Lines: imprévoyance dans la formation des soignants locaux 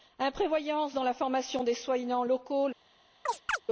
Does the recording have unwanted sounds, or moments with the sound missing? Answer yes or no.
yes